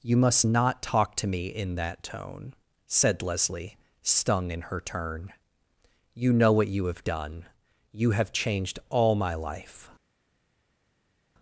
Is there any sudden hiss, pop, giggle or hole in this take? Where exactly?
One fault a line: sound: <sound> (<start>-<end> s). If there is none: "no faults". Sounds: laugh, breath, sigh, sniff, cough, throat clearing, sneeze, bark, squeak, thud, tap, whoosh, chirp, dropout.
no faults